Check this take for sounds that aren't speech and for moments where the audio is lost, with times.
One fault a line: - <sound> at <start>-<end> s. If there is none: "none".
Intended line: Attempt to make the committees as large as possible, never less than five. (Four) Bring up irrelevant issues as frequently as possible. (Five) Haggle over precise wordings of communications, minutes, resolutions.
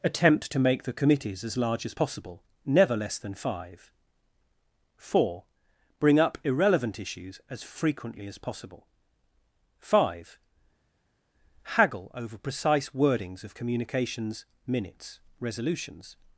none